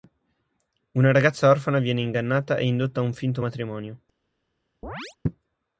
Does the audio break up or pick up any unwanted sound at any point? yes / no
yes